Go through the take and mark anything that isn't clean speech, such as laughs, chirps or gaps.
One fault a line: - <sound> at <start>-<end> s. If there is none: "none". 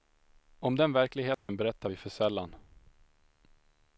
- dropout at 1.3-1.5 s